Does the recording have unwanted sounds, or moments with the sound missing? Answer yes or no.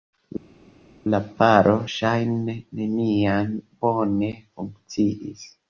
no